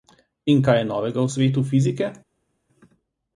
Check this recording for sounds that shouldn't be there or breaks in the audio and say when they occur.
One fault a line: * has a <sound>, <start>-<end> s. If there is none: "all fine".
all fine